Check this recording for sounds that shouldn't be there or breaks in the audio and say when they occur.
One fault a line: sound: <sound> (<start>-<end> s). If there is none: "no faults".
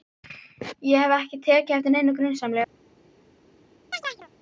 sound: chirp (3.9-4.3 s)